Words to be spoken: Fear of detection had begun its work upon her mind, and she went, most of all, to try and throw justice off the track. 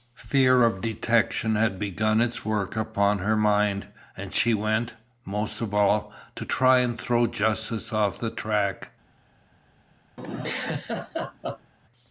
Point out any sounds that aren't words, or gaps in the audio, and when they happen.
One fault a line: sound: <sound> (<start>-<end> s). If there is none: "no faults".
sound: laugh (10.2-11.7 s)